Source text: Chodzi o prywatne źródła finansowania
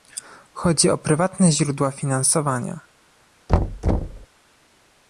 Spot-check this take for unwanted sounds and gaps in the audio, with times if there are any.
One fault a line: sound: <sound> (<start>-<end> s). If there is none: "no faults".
sound: thud (3.5-4.3 s)